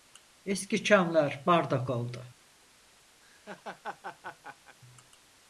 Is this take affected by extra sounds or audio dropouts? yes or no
yes